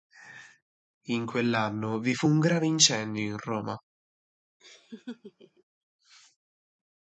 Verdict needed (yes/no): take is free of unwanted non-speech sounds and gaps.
no